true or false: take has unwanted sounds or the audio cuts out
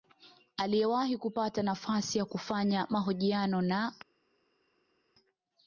false